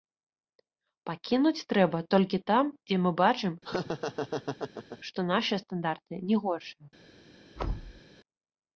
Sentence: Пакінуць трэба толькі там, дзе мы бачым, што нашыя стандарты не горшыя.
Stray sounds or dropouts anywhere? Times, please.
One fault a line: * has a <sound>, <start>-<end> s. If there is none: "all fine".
* has a laugh, 3.6-5.0 s
* has a thud, 7.6-8.0 s